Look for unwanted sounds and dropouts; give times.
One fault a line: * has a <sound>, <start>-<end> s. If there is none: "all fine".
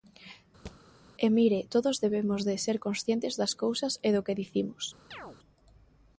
* has a thud, 0.7-0.8 s
* has a chirp, 5.1-5.4 s